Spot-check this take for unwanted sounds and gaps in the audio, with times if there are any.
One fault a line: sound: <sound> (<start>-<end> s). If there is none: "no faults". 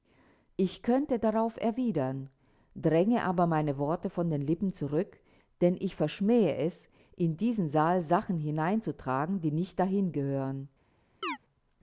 sound: chirp (11.2-11.4 s)